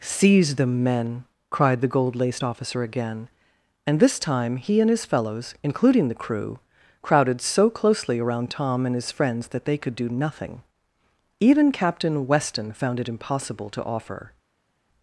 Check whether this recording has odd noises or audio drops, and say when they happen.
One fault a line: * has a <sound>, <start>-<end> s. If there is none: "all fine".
all fine